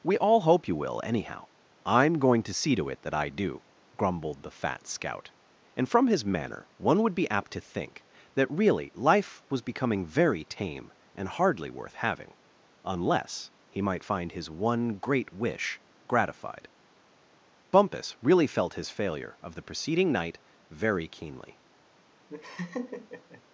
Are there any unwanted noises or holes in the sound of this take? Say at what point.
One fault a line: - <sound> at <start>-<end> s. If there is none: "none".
- laugh at 22.3-23.4 s